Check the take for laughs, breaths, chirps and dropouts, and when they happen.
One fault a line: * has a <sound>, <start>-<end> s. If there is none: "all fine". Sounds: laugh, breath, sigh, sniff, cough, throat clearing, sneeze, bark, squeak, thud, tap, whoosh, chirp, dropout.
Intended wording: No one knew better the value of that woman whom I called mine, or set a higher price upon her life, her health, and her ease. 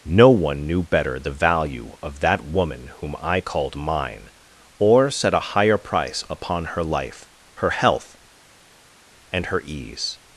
all fine